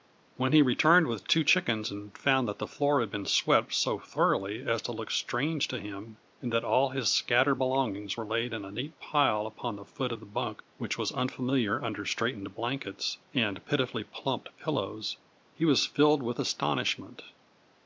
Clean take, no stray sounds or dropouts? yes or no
yes